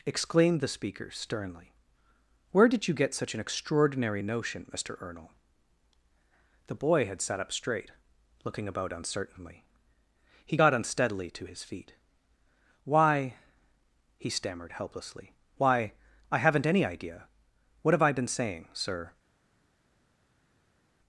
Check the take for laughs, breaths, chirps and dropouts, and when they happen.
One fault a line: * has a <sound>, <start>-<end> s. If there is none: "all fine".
all fine